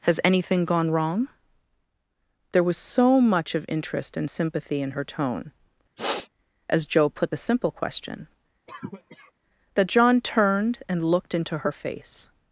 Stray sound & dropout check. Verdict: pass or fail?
fail